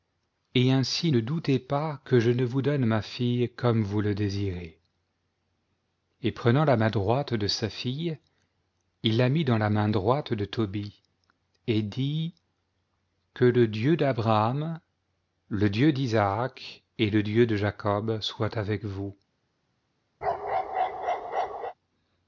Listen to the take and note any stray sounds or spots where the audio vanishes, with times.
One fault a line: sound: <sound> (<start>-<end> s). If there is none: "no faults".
sound: bark (20.2-21.7 s)